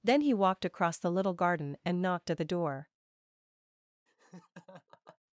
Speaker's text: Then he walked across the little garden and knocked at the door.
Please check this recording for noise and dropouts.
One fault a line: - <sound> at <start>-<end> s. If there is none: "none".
- laugh at 4.1-5.2 s